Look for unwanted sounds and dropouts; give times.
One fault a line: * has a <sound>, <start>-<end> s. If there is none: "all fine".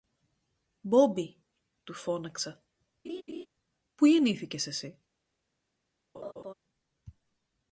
* has a laugh, 3.0-3.5 s
* has a laugh, 6.1-6.5 s